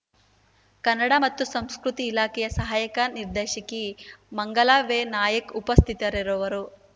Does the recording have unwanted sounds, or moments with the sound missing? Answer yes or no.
no